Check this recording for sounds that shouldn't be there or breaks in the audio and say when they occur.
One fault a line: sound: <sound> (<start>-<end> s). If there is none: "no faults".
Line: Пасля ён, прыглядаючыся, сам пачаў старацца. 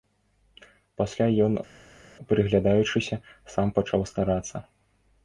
no faults